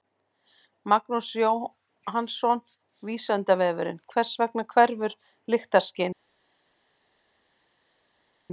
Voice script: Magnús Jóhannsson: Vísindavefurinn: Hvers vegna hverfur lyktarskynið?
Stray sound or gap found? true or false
false